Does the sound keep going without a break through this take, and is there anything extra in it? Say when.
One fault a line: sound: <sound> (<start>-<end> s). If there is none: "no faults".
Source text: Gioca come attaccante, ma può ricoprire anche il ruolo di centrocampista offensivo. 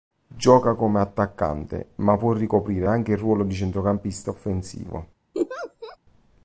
sound: laugh (5.3-6.0 s)